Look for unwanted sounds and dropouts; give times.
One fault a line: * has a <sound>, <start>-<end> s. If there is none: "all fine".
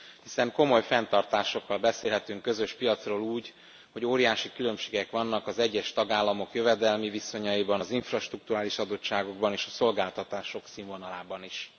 all fine